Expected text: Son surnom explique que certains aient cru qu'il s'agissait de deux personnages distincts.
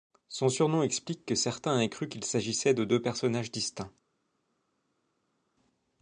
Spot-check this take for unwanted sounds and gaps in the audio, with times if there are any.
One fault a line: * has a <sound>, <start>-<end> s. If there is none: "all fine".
all fine